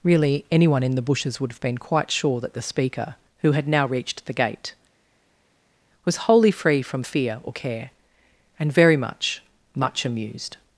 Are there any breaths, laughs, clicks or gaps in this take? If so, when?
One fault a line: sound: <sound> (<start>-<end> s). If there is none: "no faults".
no faults